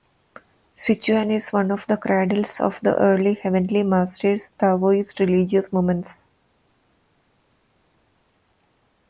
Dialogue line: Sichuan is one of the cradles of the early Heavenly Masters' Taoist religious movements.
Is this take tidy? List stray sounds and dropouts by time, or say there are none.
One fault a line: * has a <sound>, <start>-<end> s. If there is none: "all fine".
all fine